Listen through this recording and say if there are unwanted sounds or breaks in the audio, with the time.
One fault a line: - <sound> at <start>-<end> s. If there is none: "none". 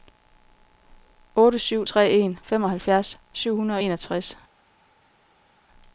none